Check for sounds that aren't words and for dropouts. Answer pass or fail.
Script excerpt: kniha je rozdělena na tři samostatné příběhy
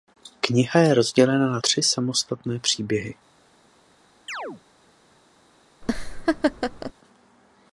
fail